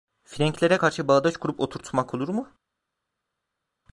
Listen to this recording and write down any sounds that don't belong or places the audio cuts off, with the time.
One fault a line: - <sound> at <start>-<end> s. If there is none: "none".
none